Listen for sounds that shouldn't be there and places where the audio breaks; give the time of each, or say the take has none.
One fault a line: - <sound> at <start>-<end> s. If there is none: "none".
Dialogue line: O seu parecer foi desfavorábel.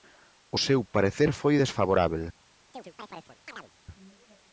- chirp at 2.7-3.7 s